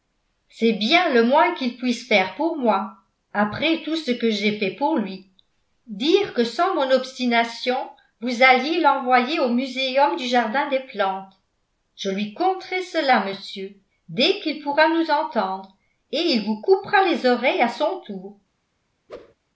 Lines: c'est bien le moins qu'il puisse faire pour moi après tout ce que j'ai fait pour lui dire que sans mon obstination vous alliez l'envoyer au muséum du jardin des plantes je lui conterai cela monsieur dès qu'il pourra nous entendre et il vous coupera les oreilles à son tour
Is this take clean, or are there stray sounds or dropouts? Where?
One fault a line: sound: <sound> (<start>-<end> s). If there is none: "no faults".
sound: whoosh (19.1-19.3 s)